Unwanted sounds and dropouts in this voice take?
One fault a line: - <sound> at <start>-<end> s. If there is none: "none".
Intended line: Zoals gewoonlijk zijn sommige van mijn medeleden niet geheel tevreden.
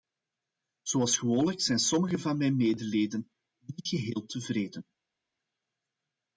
none